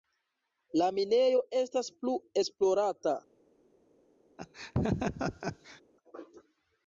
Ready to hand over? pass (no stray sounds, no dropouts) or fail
fail